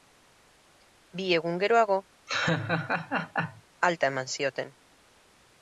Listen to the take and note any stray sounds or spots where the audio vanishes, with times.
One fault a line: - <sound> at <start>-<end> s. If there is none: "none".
- laugh at 2.3-3.6 s